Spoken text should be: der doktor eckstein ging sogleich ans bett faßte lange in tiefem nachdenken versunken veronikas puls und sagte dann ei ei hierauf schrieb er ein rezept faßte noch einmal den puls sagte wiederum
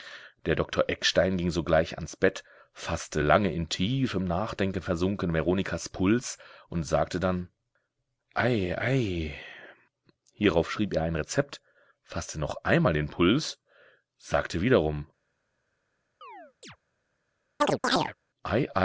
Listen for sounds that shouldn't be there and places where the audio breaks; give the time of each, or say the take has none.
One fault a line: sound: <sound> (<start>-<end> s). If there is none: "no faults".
sound: chirp (16.2-16.8 s)
sound: chirp (17.6-18.1 s)